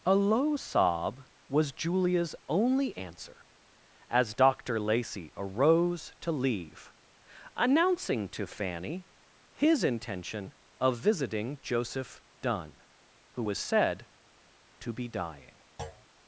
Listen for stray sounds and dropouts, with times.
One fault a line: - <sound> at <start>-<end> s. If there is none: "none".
- thud at 15.8-16.1 s